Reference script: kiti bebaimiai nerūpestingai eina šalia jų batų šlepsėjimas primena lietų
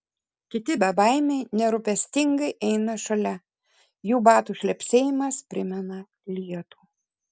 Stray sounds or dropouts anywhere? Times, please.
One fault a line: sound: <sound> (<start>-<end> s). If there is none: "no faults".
no faults